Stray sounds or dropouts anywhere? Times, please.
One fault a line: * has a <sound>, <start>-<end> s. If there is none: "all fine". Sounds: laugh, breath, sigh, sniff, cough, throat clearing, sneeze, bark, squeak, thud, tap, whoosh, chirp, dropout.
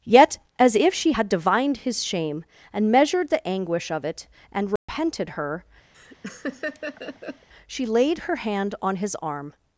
* has a dropout, 4.8-4.9 s
* has a laugh, 5.9-7.5 s